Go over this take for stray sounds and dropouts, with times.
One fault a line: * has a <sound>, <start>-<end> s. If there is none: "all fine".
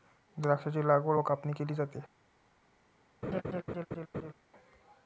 * has a laugh, 3.2-4.3 s